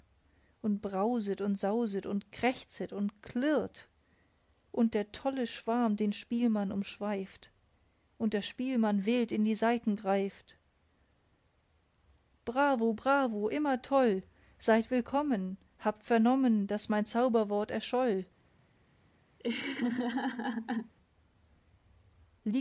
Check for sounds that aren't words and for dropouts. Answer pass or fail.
fail